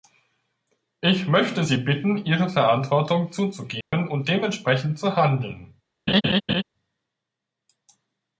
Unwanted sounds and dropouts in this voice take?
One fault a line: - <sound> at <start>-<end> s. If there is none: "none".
- dropout at 3.8-3.9 s
- laugh at 6.1-6.6 s